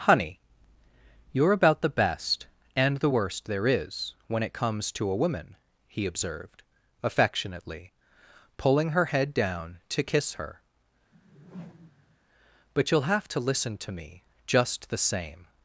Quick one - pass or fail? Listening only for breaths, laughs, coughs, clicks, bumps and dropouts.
fail